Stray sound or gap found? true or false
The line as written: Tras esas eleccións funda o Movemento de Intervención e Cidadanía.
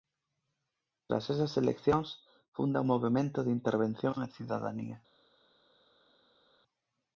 false